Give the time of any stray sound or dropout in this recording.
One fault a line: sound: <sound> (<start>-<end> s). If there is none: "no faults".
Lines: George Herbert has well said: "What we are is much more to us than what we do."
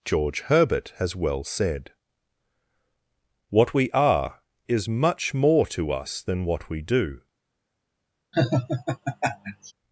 sound: laugh (8.3-9.7 s)